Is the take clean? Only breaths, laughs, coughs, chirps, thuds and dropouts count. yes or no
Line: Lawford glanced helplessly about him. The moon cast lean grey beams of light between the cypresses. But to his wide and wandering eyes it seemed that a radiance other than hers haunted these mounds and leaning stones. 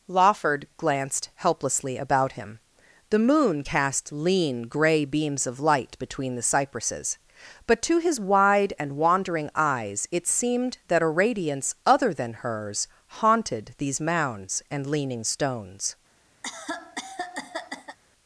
no